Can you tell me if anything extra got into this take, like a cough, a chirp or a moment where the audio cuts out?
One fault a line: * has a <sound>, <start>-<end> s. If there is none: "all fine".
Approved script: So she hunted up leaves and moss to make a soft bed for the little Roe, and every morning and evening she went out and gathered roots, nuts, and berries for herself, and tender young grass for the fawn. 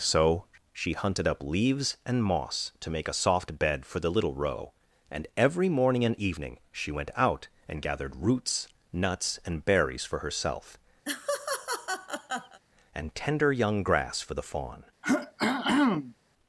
* has a laugh, 11.0-12.6 s
* has a throat clearing, 15.0-16.1 s